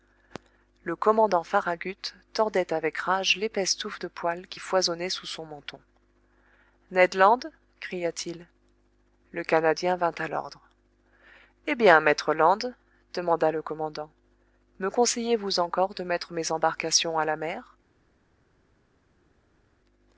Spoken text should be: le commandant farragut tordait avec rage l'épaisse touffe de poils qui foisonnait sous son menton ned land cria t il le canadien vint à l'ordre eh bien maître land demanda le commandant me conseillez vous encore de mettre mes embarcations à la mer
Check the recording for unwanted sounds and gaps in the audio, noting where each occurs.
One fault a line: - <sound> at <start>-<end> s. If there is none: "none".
none